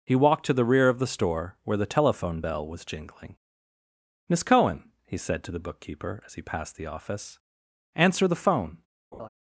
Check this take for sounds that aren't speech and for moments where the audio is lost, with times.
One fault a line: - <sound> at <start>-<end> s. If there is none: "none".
- laugh at 9.1-9.3 s